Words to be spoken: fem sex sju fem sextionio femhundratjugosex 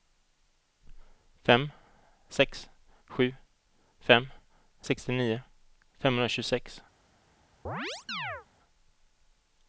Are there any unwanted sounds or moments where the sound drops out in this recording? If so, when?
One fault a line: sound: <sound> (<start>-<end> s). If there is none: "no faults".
sound: chirp (7.7-8.5 s)